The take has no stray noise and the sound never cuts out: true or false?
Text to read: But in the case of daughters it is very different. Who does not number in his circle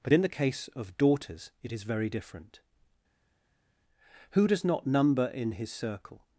true